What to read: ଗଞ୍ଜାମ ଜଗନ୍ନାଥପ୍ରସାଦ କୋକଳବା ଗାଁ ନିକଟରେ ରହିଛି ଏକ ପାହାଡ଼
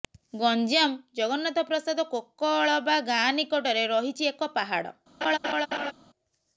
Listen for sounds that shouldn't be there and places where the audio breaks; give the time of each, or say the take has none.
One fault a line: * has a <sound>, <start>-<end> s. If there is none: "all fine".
* has a laugh, 5.2-5.9 s